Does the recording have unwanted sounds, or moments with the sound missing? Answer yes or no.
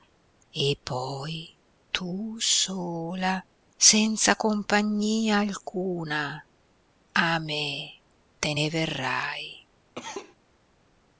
yes